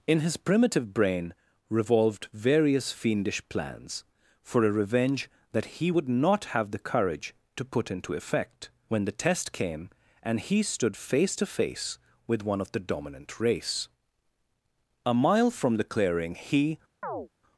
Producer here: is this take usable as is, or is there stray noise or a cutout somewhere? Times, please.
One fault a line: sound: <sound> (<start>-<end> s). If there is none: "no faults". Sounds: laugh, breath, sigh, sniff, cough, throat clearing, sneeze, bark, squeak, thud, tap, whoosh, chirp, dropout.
sound: chirp (17.0-17.3 s)